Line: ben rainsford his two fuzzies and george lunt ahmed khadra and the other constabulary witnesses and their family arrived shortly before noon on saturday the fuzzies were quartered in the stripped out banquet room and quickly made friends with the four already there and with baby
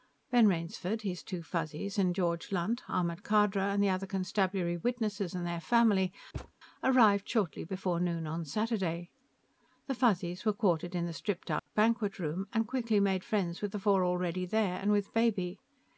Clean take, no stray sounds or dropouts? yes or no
no